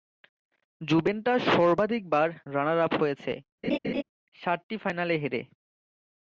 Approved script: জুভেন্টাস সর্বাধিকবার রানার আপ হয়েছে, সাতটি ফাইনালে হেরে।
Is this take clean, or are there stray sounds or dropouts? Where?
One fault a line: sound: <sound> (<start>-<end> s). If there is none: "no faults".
sound: laugh (3.6-4.0 s)